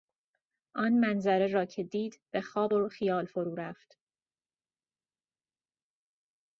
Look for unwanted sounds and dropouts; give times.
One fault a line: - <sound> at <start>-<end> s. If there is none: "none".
none